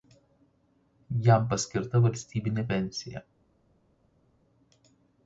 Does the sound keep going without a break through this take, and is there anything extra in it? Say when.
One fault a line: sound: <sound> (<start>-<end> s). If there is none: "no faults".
no faults